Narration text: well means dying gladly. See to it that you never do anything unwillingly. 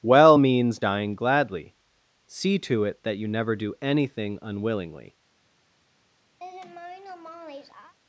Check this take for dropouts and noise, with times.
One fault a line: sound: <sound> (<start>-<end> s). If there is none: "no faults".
sound: laugh (6.4-7.9 s)